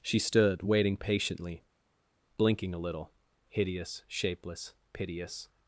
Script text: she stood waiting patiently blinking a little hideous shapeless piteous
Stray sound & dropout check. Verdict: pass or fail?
pass